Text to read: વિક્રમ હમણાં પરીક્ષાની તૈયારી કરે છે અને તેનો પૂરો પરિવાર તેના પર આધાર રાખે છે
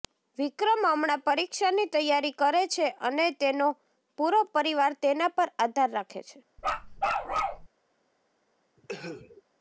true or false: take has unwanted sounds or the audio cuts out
true